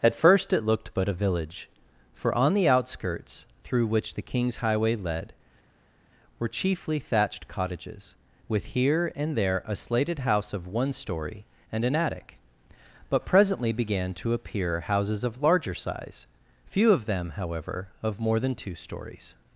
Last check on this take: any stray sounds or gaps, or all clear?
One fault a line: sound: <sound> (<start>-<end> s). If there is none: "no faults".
no faults